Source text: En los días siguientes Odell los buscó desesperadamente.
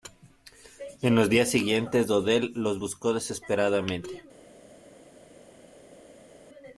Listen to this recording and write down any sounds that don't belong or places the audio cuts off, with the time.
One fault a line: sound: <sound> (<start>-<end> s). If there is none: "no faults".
no faults